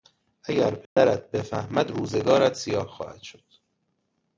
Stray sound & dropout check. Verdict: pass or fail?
fail